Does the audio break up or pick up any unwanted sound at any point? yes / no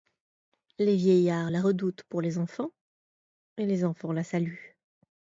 no